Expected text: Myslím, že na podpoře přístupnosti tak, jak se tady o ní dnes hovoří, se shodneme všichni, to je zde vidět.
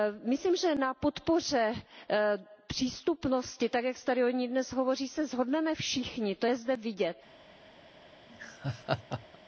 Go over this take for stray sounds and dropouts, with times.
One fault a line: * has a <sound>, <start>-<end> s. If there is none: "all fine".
* has a laugh, 8.3-9.4 s